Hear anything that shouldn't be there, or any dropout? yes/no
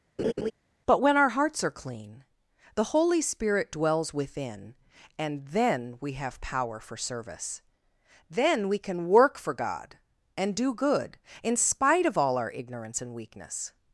yes